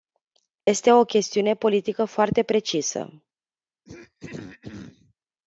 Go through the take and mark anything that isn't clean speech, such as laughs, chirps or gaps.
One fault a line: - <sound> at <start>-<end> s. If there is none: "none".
- dropout at 0.6-0.7 s
- throat clearing at 3.9-5.1 s